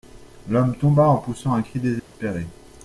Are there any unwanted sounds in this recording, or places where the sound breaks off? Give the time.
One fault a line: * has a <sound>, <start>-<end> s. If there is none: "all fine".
* has a dropout, 2.0-2.1 s